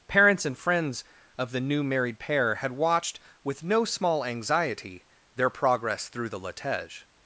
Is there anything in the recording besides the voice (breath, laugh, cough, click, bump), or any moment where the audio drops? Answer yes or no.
no